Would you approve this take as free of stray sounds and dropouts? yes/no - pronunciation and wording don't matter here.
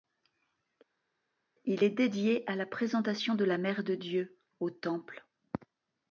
yes